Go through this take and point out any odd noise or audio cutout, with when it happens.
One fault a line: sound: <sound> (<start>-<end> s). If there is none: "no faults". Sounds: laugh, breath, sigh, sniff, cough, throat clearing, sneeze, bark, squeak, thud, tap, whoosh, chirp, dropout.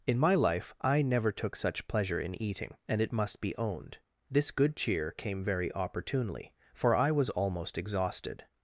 no faults